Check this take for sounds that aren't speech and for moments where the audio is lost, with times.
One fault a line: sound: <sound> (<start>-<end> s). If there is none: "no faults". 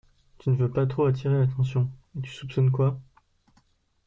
no faults